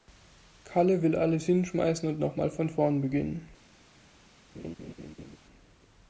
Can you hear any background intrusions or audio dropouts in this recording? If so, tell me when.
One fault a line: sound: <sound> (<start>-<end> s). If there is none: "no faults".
sound: laugh (4.5-5.4 s)